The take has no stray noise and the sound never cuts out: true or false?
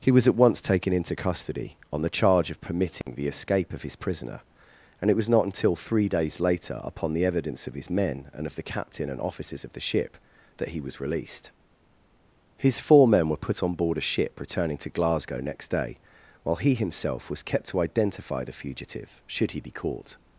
false